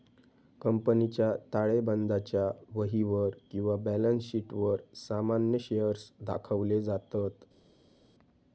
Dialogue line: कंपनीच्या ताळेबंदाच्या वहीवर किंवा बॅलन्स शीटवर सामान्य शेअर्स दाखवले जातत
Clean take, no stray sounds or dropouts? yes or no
yes